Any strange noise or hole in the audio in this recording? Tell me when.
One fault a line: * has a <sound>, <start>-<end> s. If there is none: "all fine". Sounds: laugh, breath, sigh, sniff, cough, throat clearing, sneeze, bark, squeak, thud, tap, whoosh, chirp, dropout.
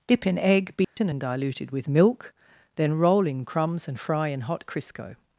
* has a dropout, 0.8-1.0 s